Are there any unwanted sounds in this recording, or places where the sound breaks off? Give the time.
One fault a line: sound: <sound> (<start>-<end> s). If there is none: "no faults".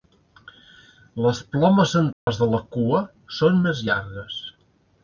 sound: dropout (2.1-2.3 s)